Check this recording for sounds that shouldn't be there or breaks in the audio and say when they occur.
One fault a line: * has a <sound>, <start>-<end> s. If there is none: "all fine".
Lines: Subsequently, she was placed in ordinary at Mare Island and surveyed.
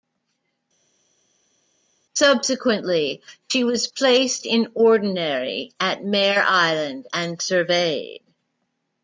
all fine